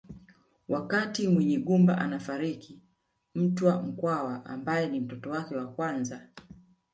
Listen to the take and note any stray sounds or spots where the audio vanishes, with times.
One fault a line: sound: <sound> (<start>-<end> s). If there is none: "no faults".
no faults